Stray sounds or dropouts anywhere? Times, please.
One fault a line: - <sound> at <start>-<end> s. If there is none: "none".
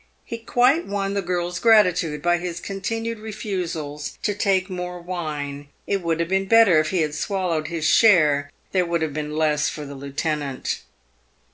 none